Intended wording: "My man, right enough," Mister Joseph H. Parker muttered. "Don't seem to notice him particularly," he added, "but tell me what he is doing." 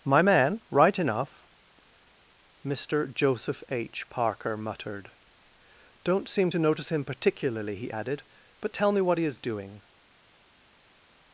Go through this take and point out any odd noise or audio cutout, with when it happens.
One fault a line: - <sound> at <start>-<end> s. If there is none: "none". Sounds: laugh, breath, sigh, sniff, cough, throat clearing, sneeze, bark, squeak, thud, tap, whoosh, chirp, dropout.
none